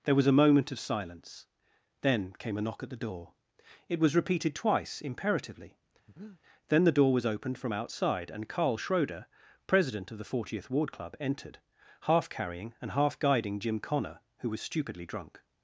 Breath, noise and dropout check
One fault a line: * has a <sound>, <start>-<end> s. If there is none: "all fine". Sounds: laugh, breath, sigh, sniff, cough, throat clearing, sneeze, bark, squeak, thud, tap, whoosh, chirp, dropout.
* has a breath, 6.1-6.4 s